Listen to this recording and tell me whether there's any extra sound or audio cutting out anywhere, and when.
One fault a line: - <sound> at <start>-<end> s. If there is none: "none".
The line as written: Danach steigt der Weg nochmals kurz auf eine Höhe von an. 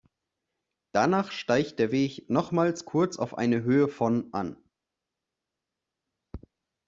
none